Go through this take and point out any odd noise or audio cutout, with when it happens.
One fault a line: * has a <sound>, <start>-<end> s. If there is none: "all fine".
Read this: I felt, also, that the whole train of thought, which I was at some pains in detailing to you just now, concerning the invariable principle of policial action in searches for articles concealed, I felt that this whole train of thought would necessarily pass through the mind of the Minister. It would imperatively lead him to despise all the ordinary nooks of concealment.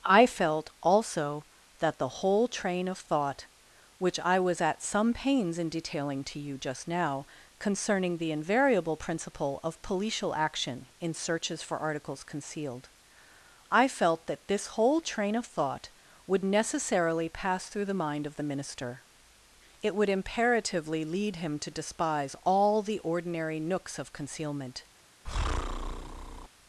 * has a breath, 25.2-26.5 s